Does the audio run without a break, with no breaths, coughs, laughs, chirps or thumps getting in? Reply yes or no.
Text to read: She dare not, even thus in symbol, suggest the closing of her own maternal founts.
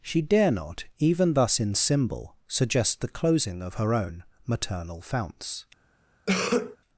no